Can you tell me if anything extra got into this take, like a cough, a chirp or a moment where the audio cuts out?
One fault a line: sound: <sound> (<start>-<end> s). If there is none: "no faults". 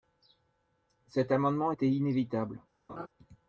sound: laugh (2.9-3.1 s)